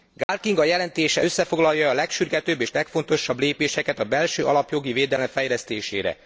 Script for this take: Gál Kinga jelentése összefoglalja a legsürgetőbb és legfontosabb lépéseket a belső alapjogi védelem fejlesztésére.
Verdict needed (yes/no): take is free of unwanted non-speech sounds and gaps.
no